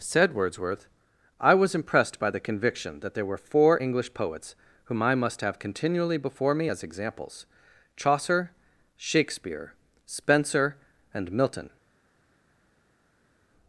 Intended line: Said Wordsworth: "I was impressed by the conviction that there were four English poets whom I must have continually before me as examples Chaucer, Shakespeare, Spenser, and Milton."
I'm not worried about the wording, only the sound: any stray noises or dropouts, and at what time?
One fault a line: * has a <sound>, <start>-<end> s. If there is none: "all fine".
all fine